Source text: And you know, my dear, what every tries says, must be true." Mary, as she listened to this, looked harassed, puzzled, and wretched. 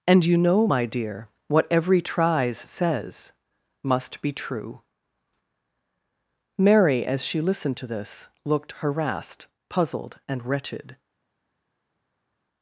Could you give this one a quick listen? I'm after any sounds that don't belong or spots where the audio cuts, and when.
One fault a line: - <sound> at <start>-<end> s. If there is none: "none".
none